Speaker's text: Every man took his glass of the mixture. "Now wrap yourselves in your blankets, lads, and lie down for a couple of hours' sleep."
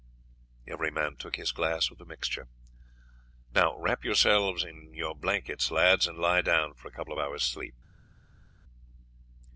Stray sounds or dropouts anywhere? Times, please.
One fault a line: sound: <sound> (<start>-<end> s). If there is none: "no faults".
no faults